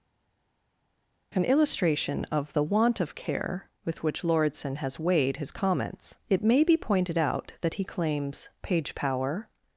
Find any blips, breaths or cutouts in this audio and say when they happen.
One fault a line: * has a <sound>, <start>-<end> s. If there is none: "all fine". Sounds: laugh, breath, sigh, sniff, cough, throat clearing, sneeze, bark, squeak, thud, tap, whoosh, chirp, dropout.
all fine